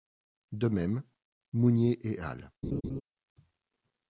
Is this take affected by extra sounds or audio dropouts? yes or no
yes